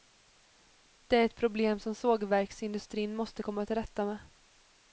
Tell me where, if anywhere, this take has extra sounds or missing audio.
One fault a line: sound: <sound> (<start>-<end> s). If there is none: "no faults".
no faults